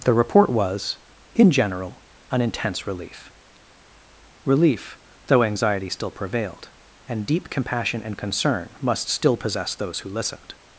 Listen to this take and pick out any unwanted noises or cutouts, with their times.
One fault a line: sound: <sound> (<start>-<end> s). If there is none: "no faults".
no faults